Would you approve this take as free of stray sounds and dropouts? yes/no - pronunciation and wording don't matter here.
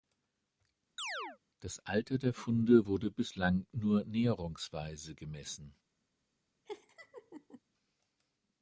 no